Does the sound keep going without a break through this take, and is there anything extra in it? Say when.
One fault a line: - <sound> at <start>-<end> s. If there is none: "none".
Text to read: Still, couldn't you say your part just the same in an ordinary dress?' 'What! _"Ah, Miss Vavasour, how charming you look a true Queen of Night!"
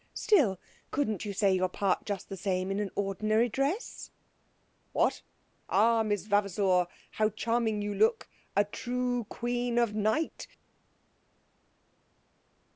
none